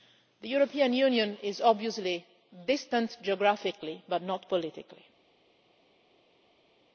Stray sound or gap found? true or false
false